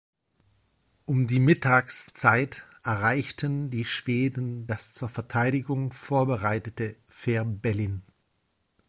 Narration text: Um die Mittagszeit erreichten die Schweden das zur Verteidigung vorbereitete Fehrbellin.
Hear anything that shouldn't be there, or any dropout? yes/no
no